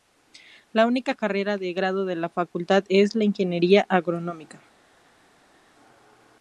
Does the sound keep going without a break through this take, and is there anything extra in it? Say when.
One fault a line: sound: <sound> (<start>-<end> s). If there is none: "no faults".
no faults